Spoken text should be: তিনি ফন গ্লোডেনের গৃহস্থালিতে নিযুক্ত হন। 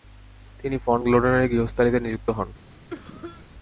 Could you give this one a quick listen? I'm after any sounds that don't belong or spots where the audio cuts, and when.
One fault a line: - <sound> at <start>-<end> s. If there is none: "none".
- cough at 2.9-3.5 s